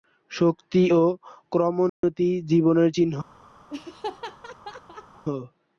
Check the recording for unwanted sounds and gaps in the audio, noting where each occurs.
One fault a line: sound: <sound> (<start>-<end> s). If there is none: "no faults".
sound: dropout (1.9-2.0 s)
sound: laugh (3.7-5.2 s)